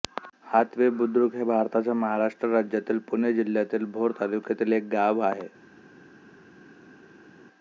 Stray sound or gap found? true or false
false